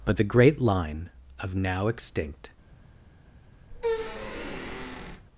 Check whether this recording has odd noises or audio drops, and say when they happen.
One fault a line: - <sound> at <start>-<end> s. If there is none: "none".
- squeak at 3.7-5.3 s